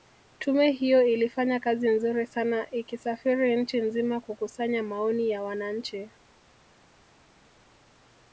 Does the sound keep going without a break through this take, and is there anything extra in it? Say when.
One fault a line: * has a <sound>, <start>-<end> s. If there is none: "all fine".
all fine